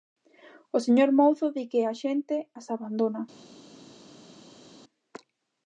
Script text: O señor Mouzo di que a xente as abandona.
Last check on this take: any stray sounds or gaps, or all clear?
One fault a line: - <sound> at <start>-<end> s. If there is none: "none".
none